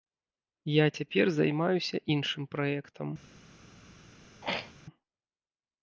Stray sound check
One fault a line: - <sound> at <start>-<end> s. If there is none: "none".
- throat clearing at 4.4-4.7 s